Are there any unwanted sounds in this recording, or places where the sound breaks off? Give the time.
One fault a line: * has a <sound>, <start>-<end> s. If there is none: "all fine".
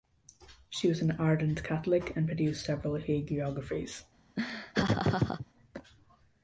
* has a laugh, 4.4-5.5 s